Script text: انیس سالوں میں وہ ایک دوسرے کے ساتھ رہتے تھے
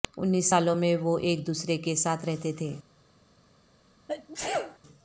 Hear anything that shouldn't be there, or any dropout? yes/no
yes